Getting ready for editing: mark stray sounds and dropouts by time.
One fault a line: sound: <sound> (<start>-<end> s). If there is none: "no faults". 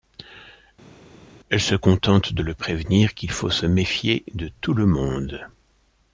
no faults